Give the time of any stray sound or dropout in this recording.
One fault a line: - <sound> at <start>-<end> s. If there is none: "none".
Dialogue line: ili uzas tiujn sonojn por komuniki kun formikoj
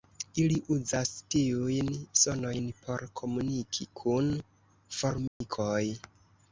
- dropout at 5.3-5.4 s